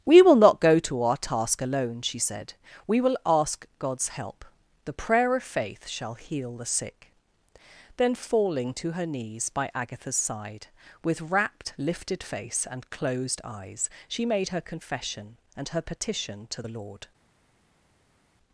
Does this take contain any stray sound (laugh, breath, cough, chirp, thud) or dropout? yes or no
no